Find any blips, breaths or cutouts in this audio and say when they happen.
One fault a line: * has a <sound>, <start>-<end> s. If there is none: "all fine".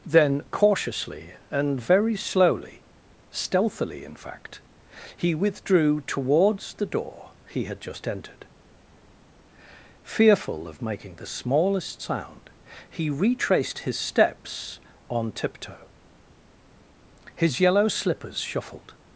all fine